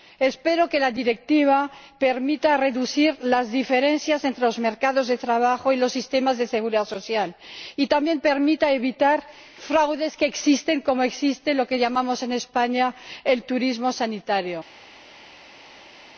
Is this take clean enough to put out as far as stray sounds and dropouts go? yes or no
yes